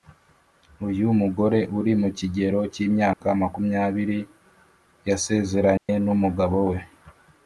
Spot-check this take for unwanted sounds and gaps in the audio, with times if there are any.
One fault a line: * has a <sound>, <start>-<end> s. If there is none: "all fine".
* has a dropout, 3.1-3.2 s
* has a dropout, 5.8-5.9 s